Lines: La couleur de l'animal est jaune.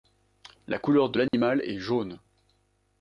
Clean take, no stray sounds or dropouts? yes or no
no